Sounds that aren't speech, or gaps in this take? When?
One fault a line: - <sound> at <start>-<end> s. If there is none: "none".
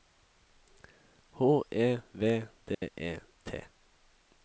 - dropout at 2.7-2.8 s